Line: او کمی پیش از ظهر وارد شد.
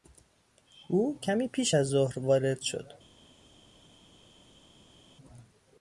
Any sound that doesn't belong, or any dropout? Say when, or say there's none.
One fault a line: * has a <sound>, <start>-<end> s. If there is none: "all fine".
all fine